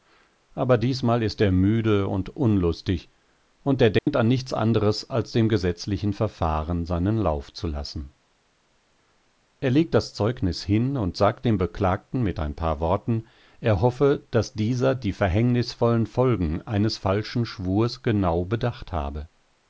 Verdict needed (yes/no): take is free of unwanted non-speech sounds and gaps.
no